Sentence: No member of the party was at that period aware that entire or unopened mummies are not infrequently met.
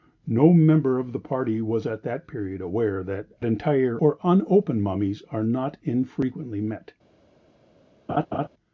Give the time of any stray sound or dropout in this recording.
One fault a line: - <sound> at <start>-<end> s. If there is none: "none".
- laugh at 8.1-8.5 s